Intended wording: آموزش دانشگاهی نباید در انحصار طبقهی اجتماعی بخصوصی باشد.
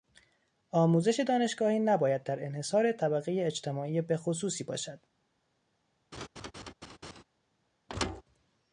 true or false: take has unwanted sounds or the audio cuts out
true